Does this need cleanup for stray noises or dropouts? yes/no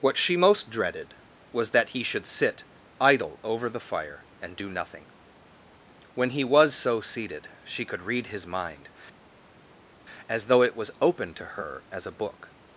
no